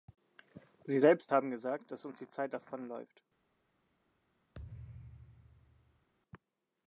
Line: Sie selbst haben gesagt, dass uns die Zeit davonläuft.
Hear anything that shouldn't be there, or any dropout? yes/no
yes